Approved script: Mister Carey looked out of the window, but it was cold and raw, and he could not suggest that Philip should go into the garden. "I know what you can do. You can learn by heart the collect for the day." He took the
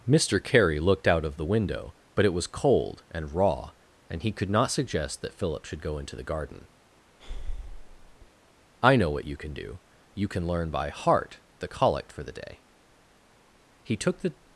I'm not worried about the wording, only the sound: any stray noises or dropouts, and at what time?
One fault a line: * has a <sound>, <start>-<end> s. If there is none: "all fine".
* has a breath, 7.2-8.3 s